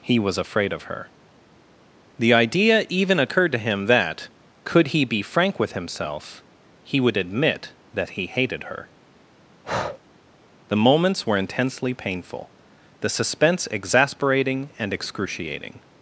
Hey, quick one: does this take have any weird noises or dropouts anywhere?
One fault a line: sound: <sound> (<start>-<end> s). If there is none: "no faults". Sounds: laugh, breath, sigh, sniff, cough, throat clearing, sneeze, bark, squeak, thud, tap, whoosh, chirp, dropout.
sound: breath (9.6-10.0 s)